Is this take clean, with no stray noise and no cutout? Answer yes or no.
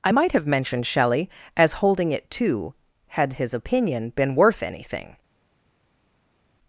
yes